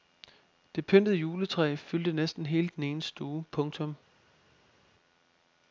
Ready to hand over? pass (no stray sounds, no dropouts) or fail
pass